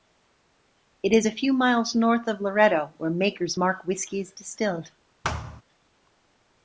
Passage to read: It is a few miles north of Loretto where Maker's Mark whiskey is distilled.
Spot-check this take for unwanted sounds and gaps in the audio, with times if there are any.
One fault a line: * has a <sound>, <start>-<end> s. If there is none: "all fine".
* has a thud, 5.2-5.6 s